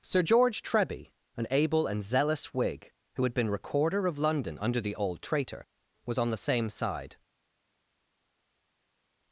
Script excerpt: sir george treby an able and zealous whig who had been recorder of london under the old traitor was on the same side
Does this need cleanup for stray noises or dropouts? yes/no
no